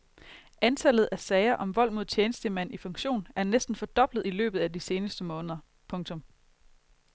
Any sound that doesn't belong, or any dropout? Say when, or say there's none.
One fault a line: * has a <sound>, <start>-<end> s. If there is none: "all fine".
all fine